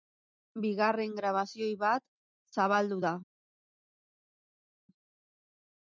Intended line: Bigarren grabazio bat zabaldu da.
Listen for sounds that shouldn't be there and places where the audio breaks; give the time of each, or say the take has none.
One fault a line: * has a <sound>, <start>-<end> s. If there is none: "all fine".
all fine